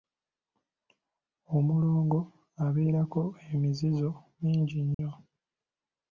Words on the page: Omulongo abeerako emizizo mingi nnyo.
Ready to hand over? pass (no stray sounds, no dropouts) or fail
fail